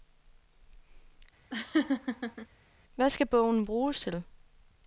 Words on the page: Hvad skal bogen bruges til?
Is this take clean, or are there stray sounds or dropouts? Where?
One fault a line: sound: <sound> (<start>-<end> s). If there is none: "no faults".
sound: laugh (1.5-2.5 s)